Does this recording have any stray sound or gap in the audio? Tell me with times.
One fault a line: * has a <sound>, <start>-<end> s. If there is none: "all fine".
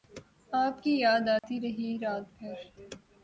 * has a dropout, 1.4-1.4 s